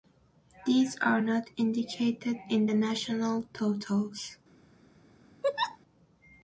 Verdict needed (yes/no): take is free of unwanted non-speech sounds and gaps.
no